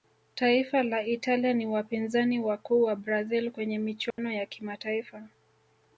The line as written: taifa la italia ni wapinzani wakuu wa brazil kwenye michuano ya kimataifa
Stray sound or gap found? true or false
true